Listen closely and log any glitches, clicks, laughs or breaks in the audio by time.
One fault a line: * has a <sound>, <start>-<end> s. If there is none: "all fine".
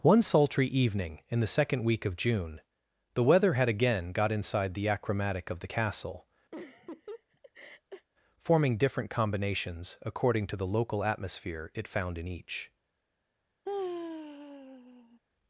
* has a laugh, 6.5-8.1 s
* has a sigh, 13.7-15.2 s